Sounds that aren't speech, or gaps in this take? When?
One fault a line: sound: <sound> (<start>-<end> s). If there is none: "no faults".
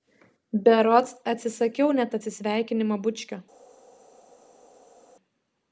no faults